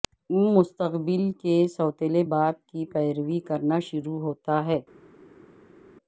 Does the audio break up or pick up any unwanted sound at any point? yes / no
no